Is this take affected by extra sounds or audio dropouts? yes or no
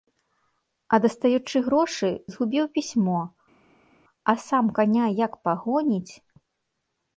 no